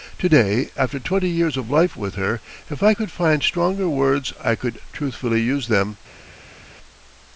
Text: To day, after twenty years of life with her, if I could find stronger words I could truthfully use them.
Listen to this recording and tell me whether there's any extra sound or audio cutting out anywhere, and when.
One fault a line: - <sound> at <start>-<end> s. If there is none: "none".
none